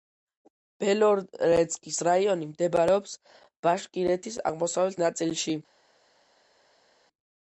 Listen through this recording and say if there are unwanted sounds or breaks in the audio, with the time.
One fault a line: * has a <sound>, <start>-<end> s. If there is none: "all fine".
all fine